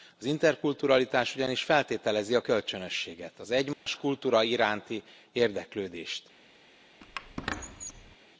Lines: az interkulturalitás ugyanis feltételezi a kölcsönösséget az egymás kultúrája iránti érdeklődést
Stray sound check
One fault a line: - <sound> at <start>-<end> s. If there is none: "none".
- dropout at 3.7-3.9 s
- squeak at 7.0-8.2 s